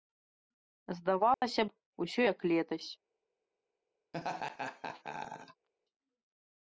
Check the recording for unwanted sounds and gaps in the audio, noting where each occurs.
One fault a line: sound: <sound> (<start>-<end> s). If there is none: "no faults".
sound: dropout (1.3-1.4 s)
sound: laugh (4.1-5.7 s)